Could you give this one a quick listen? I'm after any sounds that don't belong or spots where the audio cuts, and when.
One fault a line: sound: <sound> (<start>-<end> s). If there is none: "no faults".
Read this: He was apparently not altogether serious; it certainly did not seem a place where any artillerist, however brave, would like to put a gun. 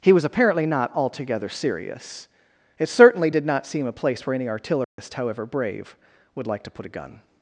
sound: dropout (4.8-5.0 s)